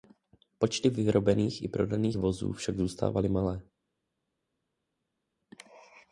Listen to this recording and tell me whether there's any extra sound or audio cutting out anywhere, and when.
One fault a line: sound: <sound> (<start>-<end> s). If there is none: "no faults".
no faults